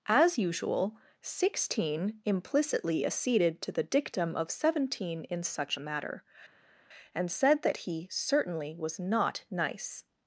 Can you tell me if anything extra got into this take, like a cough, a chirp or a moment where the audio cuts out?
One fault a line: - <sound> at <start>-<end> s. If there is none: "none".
none